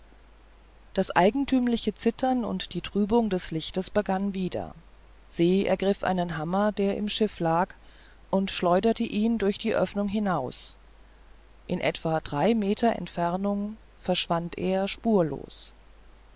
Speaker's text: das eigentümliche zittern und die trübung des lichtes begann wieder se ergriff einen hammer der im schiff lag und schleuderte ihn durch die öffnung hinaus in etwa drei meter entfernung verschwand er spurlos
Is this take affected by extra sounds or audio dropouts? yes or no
no